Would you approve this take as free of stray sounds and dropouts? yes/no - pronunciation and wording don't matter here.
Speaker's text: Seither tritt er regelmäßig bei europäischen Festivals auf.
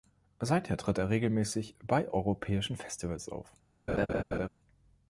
no